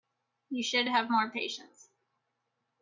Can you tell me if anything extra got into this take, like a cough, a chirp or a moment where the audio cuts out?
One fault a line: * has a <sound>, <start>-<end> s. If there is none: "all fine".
all fine